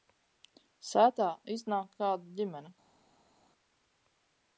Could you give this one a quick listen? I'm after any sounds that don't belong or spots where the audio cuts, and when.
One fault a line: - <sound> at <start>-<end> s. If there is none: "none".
none